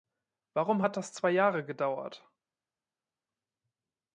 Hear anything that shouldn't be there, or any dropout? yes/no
no